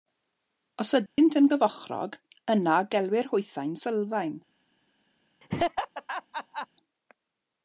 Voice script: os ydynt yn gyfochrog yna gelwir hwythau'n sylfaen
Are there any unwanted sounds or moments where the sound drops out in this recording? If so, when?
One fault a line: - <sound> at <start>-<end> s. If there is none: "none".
- dropout at 1.1-1.2 s
- laugh at 5.4-6.7 s